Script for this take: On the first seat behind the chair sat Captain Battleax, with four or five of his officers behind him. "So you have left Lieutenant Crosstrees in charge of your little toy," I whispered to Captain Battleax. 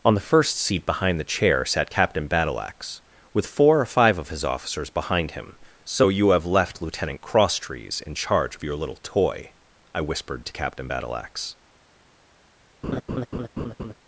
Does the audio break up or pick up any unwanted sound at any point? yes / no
yes